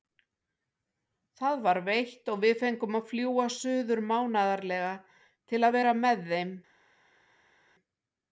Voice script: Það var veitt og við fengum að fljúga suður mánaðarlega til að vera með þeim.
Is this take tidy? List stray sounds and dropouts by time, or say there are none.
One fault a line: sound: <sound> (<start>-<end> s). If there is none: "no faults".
no faults